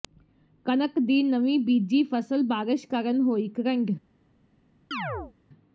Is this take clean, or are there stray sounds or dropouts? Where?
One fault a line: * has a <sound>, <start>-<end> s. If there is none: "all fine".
* has a chirp, 4.9-5.3 s